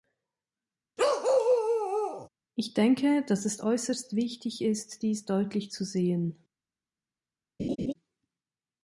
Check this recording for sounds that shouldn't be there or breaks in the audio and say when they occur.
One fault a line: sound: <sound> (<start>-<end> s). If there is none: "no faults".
sound: bark (1.0-2.3 s)
sound: laugh (7.6-7.9 s)